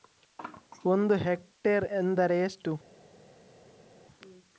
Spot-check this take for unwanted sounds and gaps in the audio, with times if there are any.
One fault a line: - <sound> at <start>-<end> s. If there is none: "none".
none